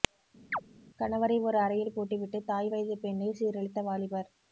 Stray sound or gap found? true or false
true